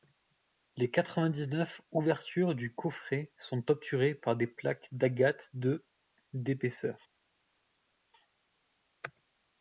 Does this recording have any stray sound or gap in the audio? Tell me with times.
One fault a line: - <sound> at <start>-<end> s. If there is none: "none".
none